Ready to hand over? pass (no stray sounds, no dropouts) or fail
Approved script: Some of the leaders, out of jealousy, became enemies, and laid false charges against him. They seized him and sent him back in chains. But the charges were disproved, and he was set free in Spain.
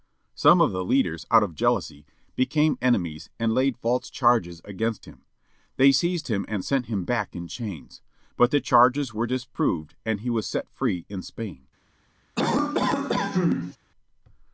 fail